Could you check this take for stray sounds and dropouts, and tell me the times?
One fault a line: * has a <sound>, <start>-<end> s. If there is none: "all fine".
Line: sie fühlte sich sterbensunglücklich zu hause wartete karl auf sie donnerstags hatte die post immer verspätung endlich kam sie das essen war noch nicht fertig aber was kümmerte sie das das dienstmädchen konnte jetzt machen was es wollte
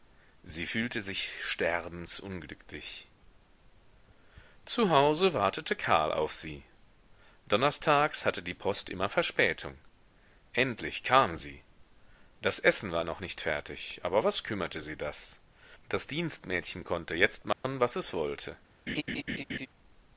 * has a dropout, 17.5-17.6 s
* has a laugh, 18.9-19.7 s